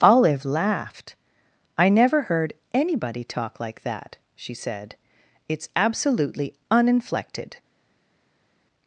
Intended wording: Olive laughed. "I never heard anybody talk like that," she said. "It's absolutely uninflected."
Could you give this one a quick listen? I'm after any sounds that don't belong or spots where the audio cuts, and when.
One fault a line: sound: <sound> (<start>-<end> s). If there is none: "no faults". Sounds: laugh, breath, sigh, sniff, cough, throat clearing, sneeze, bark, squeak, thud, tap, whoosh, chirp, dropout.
no faults